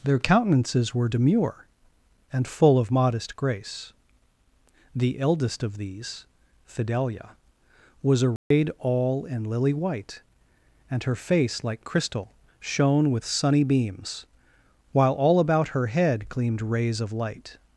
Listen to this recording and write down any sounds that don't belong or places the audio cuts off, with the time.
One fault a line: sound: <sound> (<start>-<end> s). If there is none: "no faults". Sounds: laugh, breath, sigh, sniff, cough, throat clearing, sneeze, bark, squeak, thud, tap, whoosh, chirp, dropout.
sound: dropout (8.4-8.5 s)